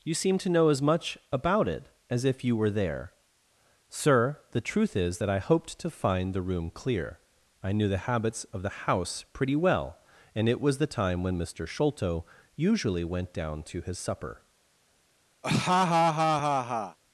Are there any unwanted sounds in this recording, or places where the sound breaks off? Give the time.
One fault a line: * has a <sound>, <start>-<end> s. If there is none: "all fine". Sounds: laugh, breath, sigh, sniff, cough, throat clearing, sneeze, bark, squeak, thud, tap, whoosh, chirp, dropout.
* has a laugh, 15.4-17.0 s